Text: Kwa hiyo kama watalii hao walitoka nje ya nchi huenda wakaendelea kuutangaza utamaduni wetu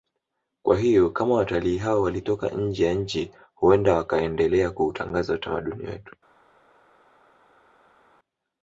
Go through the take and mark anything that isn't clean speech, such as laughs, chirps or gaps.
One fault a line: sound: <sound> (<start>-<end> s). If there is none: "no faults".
no faults